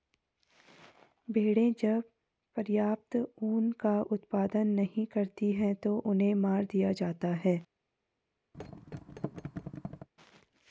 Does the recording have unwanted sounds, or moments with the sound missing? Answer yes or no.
yes